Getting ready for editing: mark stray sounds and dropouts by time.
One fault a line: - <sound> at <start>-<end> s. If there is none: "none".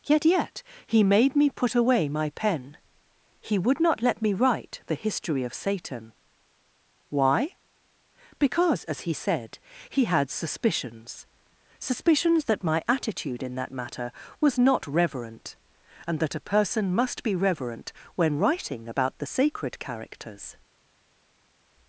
none